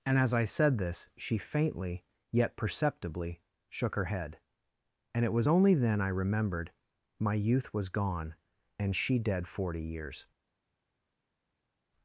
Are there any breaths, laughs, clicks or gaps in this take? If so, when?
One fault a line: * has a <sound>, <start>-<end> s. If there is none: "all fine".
all fine